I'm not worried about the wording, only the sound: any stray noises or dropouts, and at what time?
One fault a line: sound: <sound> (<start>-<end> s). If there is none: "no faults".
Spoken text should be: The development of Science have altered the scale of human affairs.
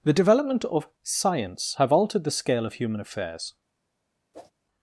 sound: whoosh (4.3-4.5 s)